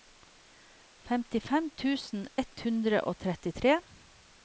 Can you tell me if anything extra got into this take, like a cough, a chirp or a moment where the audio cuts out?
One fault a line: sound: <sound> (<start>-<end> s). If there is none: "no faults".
no faults